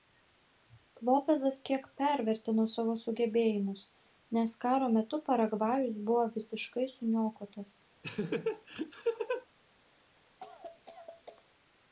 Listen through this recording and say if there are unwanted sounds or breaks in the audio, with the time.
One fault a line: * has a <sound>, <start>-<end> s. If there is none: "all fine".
* has a laugh, 8.0-9.5 s
* has a cough, 10.4-11.4 s